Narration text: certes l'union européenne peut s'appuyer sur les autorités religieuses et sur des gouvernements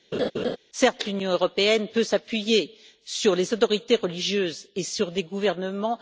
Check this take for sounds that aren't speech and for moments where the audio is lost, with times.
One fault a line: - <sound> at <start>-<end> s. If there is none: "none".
- laugh at 0.1-0.6 s